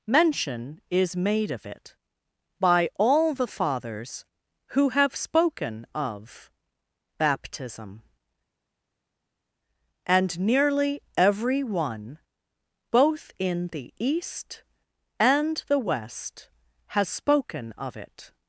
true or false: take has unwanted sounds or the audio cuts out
false